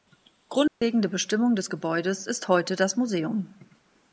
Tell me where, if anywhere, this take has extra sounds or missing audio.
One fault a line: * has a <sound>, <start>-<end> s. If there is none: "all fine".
* has a dropout, 0.7-0.8 s